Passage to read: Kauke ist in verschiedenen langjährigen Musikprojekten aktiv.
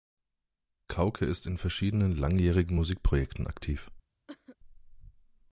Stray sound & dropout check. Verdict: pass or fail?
fail